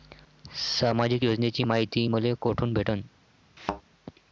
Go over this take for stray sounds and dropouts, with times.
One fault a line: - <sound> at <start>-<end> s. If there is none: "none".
- thud at 3.6-3.8 s